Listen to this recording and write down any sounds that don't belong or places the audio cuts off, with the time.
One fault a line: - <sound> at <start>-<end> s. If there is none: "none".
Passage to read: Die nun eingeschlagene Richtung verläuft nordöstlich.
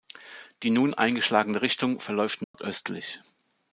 - dropout at 2.4-2.5 s